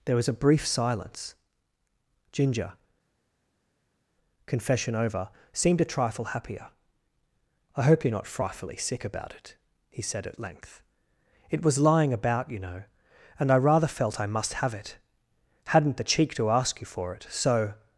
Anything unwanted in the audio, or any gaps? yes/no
no